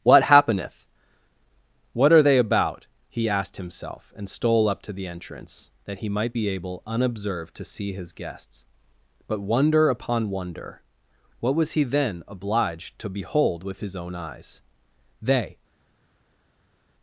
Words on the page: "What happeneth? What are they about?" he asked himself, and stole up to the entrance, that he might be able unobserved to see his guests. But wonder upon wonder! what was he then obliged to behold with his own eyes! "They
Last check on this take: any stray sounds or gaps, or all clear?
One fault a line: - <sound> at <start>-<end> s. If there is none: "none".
none